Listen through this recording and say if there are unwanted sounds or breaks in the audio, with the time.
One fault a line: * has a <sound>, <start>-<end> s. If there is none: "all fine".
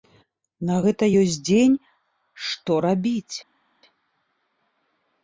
all fine